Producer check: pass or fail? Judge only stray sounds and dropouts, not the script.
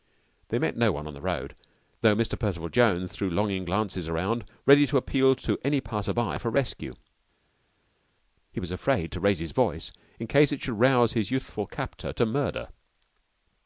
pass